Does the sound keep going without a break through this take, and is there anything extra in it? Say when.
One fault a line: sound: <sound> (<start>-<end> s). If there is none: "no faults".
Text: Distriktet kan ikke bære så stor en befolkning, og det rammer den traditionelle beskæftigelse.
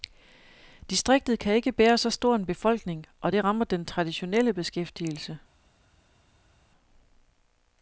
no faults